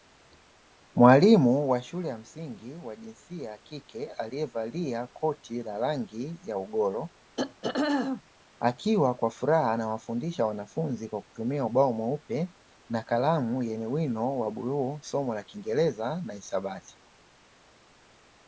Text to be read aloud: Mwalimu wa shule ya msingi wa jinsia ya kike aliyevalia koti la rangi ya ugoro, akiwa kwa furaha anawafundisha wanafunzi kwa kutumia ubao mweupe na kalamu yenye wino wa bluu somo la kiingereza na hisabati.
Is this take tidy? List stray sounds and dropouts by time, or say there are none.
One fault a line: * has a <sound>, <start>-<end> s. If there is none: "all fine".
* has a throat clearing, 7.4-8.2 s